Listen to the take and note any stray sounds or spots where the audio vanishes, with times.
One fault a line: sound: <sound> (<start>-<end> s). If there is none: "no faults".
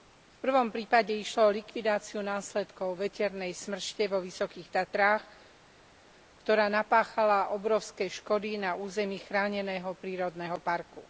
no faults